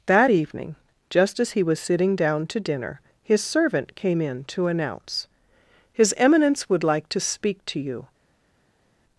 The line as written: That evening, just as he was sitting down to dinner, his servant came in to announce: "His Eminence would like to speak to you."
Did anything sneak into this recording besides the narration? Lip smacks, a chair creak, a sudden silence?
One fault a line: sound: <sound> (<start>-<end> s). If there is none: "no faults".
no faults